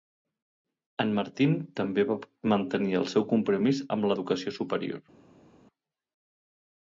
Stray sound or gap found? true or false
false